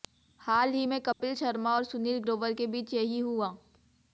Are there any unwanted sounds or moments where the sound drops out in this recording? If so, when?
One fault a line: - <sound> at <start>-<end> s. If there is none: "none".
- dropout at 1.1-1.2 s